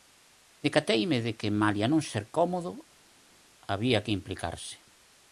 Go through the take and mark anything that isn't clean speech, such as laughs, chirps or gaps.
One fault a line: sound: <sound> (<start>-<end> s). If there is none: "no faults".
no faults